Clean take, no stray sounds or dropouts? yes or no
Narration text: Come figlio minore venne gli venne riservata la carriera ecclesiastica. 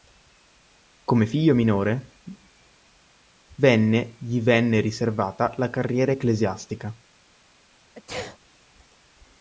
no